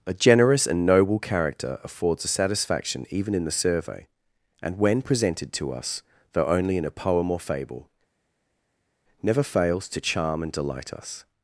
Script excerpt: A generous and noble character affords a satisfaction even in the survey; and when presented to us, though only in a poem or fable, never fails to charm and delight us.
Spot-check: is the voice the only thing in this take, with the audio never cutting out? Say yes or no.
yes